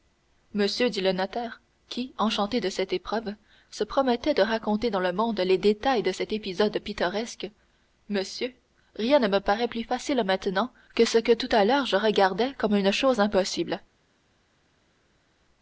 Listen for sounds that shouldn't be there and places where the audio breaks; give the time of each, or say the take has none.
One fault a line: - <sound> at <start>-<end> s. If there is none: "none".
none